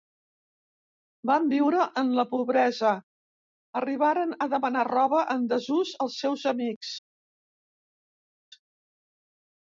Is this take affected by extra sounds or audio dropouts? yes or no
no